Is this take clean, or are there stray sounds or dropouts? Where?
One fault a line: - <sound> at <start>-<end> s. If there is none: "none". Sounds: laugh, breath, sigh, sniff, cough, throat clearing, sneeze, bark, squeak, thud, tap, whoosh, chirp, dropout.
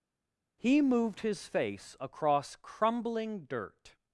none